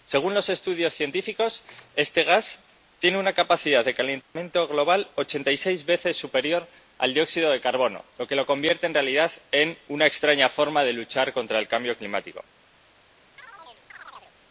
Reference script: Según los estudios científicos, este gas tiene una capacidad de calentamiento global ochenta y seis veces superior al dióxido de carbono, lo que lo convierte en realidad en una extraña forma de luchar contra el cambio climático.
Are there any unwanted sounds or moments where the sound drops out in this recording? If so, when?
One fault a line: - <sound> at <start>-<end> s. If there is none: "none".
- dropout at 4.2-4.4 s
- chirp at 13.4-14.3 s